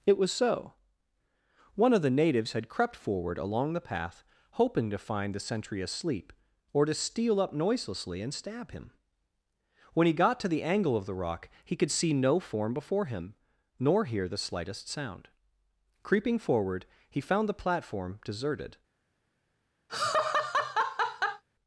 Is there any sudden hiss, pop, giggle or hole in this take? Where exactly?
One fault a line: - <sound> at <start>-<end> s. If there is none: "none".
- laugh at 19.9-21.4 s